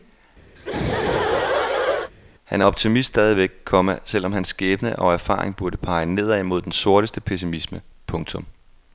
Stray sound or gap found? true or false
true